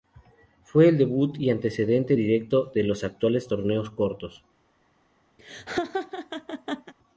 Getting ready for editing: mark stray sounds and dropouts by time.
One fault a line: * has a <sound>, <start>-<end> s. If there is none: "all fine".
* has a laugh, 5.4-6.9 s